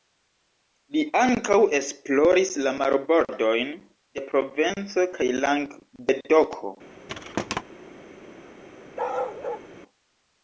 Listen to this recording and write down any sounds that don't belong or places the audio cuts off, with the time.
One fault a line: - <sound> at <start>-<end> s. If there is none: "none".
- thud at 7.1-7.6 s
- bark at 9.0-9.7 s